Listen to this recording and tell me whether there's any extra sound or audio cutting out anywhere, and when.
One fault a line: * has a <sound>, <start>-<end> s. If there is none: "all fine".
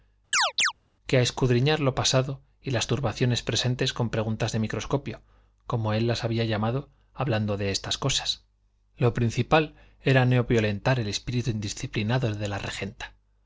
* has a chirp, 0.3-0.7 s